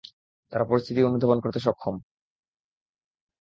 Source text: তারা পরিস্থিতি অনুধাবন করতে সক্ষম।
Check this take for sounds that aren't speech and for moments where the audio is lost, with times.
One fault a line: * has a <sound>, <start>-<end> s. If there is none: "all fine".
all fine